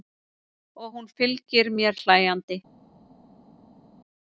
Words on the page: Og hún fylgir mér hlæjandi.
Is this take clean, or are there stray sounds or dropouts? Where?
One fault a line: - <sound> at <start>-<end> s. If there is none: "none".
none